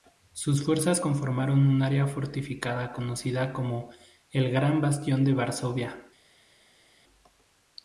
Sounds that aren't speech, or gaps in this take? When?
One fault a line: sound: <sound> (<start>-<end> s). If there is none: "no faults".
no faults